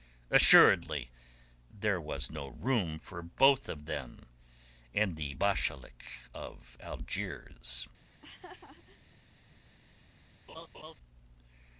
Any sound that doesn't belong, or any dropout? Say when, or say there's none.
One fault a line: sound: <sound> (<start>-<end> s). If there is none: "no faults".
sound: laugh (8.1-9.2 s)
sound: laugh (10.5-10.9 s)